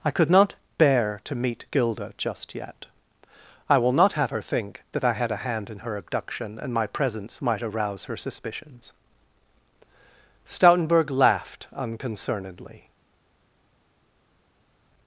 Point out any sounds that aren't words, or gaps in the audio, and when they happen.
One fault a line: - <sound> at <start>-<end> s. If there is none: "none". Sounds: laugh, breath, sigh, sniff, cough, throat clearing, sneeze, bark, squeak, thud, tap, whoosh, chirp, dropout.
none